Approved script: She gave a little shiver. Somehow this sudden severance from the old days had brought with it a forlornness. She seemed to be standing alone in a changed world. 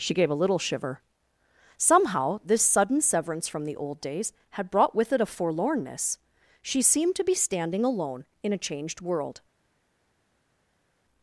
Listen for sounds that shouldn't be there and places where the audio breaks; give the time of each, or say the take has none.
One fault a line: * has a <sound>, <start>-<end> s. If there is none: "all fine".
all fine